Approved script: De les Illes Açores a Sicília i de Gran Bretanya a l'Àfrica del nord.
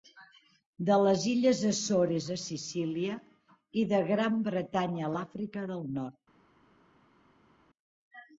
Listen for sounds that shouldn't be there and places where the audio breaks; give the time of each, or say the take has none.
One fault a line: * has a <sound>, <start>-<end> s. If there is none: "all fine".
all fine